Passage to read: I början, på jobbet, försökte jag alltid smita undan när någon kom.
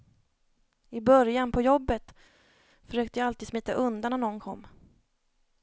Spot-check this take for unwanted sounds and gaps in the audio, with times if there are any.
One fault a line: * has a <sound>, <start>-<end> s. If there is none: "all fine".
all fine